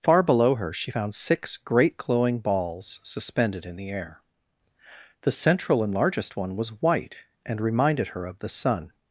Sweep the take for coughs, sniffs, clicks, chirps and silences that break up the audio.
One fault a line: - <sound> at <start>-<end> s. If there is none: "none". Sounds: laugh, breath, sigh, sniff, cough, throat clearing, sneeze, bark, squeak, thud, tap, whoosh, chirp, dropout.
none